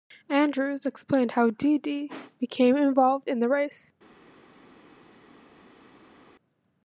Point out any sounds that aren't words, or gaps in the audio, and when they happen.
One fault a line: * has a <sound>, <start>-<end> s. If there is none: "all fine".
all fine